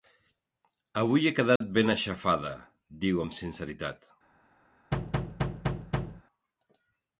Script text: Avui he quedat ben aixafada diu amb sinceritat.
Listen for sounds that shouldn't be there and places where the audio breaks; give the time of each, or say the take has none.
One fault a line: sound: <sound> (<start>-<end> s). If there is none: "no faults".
sound: dropout (1.6-1.6 s)
sound: thud (4.9-6.2 s)